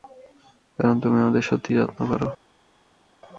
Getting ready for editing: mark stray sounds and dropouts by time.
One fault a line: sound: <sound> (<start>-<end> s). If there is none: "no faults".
no faults